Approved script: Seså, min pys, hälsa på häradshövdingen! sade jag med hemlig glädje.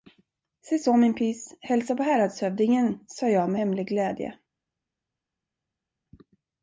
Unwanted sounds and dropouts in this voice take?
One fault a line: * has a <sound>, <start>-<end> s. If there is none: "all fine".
all fine